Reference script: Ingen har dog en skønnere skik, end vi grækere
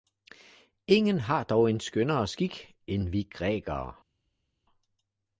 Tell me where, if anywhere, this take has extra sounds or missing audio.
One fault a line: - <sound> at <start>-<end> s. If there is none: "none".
none